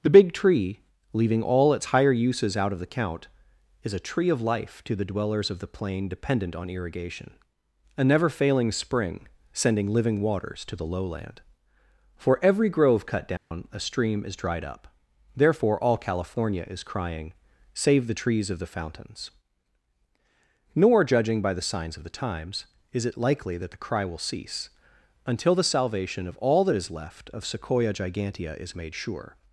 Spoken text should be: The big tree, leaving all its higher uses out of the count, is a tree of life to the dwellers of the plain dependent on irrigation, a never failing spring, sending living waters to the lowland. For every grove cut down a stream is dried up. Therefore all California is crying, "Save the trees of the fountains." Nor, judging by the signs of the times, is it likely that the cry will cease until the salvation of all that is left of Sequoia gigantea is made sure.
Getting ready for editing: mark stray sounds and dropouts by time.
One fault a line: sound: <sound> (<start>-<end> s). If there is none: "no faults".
sound: dropout (13.4-13.5 s)